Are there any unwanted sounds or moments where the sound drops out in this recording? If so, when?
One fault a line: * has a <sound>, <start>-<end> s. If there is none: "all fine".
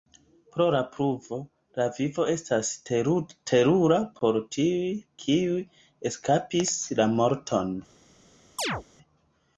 * has a chirp, 8.6-8.8 s